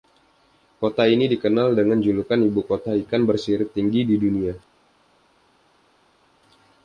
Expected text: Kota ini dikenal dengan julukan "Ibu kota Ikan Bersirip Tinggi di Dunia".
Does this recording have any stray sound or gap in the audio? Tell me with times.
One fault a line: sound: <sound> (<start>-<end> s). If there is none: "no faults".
no faults